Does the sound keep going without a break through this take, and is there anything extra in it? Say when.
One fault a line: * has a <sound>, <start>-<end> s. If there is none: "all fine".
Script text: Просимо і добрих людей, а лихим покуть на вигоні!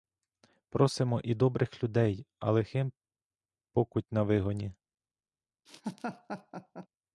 * has a laugh, 5.7-6.9 s